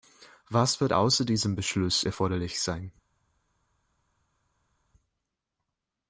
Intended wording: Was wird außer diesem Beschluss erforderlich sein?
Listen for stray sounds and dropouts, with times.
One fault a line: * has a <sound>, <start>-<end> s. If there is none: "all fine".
all fine